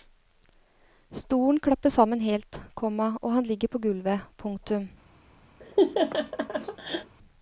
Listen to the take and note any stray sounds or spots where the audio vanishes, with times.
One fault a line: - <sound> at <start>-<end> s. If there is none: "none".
- laugh at 5.6-7.2 s